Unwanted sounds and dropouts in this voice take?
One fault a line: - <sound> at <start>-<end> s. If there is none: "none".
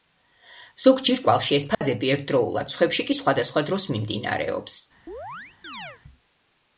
- dropout at 1.7-1.8 s
- chirp at 5.1-6.0 s